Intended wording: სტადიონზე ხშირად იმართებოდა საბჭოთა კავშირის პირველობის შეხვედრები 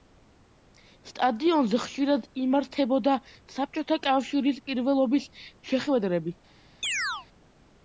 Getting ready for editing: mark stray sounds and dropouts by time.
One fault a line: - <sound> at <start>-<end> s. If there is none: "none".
- chirp at 6.8-7.3 s